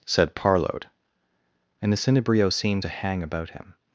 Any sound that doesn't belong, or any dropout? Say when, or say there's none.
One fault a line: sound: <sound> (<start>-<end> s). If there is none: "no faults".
no faults